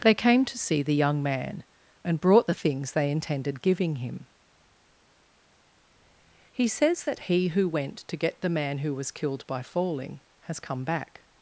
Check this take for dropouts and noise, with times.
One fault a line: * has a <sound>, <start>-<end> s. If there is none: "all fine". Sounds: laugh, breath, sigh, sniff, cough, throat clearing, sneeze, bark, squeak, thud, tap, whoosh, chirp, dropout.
all fine